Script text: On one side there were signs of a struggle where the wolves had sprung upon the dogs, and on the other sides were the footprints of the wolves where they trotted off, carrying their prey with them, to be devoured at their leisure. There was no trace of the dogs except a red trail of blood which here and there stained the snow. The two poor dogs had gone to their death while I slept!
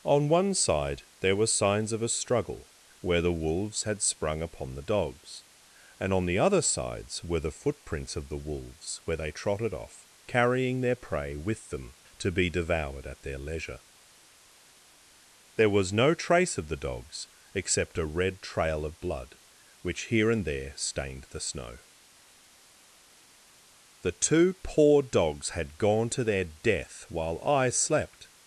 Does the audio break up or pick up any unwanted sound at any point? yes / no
no